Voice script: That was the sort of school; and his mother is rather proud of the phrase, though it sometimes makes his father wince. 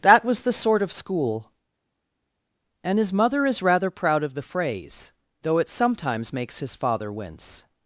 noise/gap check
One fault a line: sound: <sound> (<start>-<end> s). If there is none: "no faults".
no faults